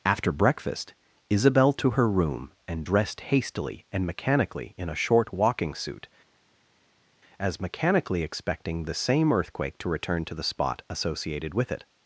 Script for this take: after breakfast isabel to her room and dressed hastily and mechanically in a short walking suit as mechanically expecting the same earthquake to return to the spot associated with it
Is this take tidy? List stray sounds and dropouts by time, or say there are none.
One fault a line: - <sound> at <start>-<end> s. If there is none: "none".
none